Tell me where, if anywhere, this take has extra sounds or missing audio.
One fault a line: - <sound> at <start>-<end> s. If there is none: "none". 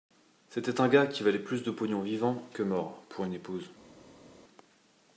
none